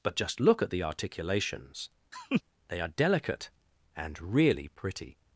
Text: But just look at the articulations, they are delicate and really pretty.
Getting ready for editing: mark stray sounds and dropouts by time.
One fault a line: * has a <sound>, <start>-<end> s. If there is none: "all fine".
* has a laugh, 2.1-2.4 s